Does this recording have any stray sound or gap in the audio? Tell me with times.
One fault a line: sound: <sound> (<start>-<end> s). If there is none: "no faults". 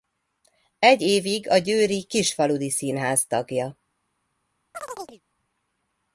sound: chirp (4.7-5.2 s)